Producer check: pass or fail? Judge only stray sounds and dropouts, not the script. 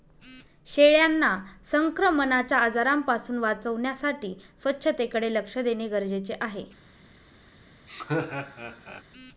fail